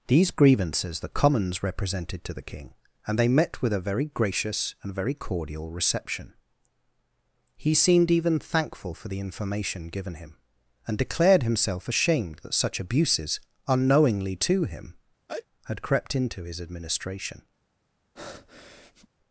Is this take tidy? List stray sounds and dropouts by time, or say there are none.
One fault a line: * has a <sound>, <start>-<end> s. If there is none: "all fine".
* has a sneeze, 15.3-15.5 s
* has a breath, 18.2-19.1 s